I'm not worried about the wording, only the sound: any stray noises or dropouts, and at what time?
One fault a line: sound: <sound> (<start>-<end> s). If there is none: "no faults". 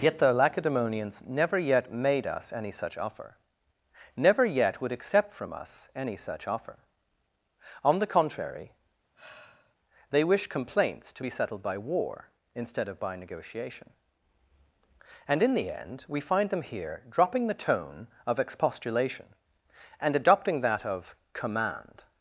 sound: sigh (9.1-9.8 s)